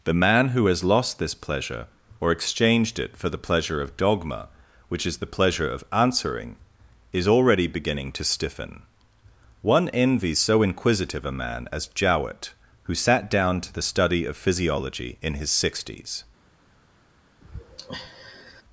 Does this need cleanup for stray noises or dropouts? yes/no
yes